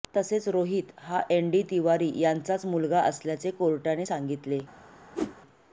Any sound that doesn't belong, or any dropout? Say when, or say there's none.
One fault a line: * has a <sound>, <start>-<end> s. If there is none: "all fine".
* has a whoosh, 5.1-5.4 s